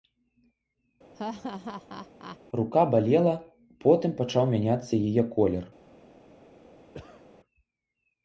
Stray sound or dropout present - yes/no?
yes